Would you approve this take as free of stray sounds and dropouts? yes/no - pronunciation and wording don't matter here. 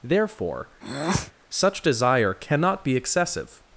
no